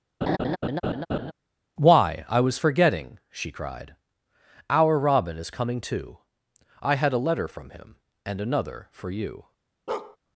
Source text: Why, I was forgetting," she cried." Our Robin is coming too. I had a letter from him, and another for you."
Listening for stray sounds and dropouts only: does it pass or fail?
fail